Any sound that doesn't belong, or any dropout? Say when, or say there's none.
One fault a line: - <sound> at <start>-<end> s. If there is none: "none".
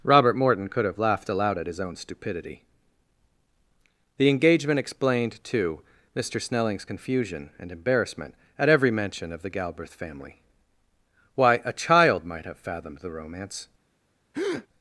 - breath at 14.3-14.7 s